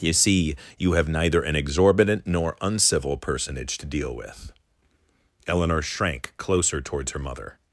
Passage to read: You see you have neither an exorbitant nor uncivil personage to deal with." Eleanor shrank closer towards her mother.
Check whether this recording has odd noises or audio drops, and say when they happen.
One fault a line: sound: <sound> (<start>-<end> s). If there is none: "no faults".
no faults